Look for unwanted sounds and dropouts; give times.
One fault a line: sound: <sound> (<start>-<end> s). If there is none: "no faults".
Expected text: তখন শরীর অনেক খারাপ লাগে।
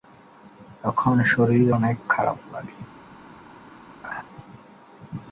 sound: laugh (4.0-4.2 s)